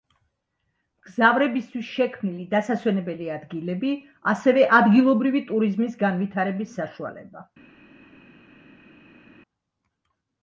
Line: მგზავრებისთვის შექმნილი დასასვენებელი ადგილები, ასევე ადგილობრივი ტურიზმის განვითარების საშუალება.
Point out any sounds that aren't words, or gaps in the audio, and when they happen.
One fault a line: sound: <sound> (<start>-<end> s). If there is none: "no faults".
no faults